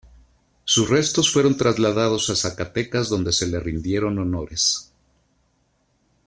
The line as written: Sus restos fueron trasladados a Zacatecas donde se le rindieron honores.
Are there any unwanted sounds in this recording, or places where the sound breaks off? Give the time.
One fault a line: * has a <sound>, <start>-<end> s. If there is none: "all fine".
all fine